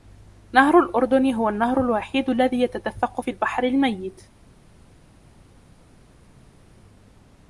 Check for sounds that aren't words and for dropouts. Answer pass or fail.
pass